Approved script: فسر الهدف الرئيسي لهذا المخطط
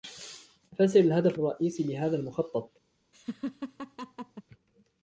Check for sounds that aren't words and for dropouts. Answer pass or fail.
fail